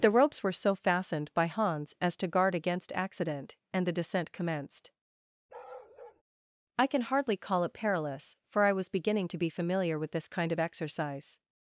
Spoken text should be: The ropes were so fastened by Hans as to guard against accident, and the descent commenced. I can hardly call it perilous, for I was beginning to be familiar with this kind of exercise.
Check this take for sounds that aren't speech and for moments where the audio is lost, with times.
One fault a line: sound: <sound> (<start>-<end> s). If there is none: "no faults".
sound: bark (5.5-6.2 s)